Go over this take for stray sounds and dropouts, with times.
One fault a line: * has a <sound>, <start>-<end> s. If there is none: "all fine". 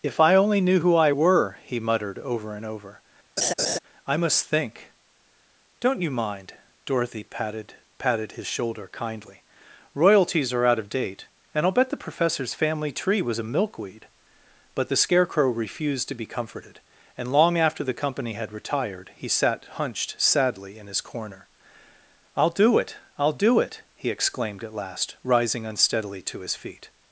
* has a laugh, 3.4-3.8 s